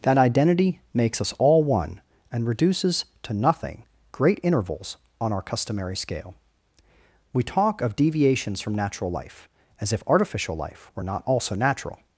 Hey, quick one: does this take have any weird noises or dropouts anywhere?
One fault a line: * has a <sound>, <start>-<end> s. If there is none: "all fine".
all fine